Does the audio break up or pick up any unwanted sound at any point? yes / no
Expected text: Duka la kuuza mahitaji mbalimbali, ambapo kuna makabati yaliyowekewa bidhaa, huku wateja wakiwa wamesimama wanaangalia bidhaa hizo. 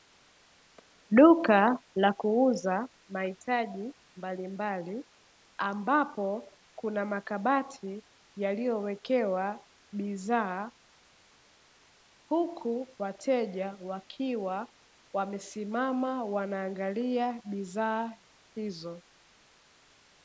no